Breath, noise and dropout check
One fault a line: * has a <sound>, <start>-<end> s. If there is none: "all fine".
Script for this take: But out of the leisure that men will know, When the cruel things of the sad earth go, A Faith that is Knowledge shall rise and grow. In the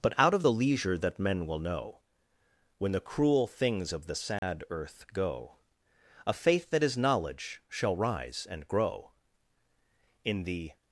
* has a dropout, 4.4-4.4 s